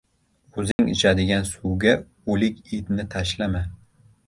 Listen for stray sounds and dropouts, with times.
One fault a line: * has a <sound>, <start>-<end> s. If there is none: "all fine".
* has a dropout, 0.7-0.8 s